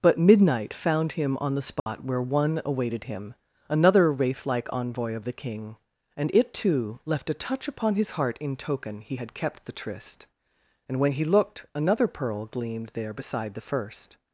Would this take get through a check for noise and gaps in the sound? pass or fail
fail